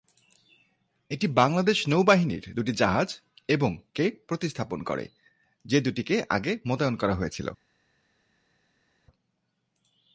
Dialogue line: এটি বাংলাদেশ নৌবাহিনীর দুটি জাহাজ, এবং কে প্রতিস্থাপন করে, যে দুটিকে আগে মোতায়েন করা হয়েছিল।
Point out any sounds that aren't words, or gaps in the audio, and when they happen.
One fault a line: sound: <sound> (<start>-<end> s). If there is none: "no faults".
no faults